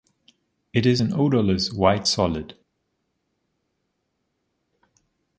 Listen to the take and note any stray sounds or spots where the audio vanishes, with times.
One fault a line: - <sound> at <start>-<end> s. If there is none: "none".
none